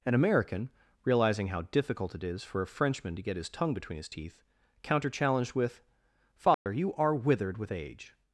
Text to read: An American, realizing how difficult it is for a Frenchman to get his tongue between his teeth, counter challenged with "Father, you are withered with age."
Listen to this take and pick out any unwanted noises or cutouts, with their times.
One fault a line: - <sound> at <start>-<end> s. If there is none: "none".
- dropout at 6.5-6.7 s